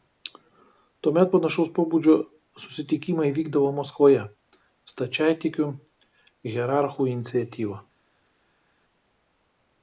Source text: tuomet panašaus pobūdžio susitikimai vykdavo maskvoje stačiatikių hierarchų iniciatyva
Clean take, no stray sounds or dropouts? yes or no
yes